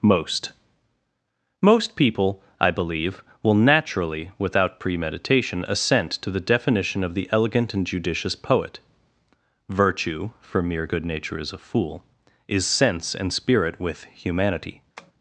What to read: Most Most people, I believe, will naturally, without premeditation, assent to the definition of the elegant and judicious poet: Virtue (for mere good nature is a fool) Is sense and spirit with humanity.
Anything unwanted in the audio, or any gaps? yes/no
yes